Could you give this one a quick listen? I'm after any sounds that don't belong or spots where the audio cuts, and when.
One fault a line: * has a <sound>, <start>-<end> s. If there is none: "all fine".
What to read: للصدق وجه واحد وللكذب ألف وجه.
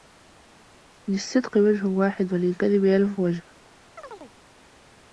* has a chirp, 4.0-4.3 s